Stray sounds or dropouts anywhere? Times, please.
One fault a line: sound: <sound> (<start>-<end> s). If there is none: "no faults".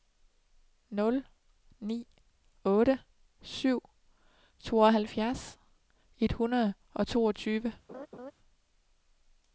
sound: laugh (7.9-8.3 s)